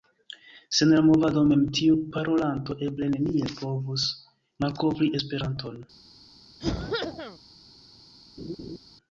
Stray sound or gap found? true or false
true